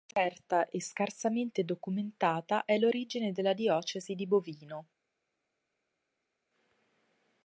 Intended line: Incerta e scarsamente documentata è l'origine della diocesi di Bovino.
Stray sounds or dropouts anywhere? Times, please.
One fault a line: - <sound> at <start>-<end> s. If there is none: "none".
none